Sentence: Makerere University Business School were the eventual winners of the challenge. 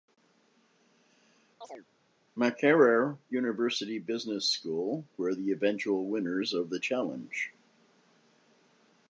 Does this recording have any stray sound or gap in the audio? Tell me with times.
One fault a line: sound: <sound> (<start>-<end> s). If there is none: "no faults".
sound: chirp (1.6-1.9 s)